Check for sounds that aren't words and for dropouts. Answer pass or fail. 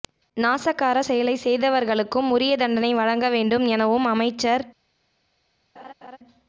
fail